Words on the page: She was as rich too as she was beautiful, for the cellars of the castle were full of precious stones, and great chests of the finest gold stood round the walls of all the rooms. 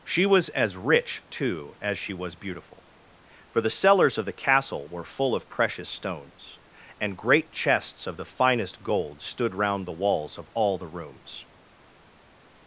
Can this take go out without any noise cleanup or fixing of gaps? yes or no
yes